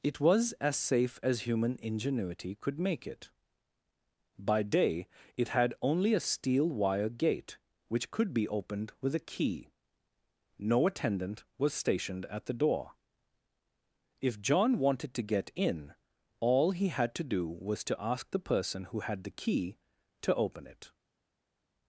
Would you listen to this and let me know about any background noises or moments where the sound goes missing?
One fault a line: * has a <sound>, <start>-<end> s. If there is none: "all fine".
all fine